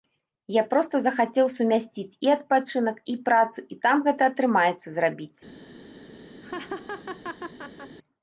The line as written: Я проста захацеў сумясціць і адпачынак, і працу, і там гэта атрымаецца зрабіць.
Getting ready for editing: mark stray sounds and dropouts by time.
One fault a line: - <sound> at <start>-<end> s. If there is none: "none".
- laugh at 6.4-8.0 s